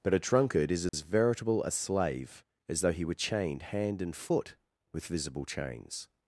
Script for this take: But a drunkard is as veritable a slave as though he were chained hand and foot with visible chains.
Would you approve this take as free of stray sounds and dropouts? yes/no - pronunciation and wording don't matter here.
no